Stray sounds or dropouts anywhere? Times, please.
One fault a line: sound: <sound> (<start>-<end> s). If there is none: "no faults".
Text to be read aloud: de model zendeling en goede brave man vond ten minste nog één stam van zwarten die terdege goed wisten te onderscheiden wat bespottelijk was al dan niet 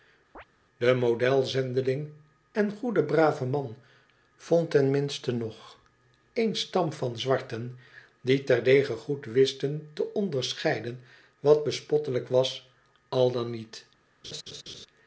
sound: chirp (0.3-0.4 s)
sound: laugh (14.2-14.9 s)